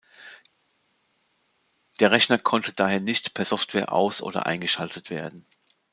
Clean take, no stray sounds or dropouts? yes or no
yes